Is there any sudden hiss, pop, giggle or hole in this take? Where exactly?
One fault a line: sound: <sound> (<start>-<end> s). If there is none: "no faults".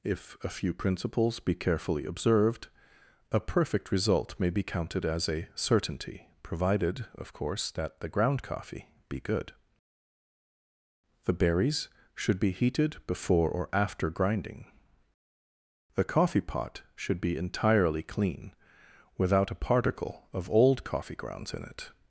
no faults